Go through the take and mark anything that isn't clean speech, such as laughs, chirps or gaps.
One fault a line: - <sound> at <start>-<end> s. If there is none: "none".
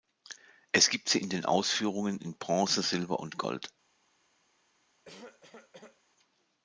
- cough at 5.0-6.0 s